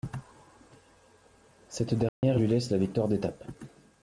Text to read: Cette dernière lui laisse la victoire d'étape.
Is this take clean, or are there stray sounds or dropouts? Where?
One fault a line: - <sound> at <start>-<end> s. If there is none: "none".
- dropout at 2.1-2.2 s